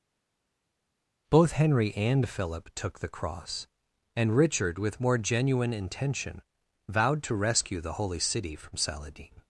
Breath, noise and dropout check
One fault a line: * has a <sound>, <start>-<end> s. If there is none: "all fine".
all fine